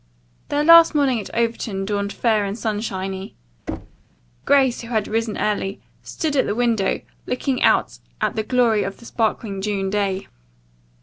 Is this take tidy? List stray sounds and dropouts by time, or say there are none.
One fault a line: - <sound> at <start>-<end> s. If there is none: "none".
- thud at 3.7-4.0 s